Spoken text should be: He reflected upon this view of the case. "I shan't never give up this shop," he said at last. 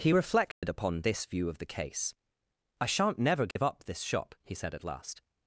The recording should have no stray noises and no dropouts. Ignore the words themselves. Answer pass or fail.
fail